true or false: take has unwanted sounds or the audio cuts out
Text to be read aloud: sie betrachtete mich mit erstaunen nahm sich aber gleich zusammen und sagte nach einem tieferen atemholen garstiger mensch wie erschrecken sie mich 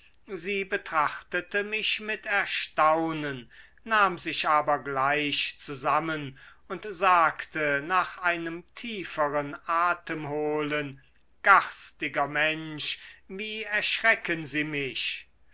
false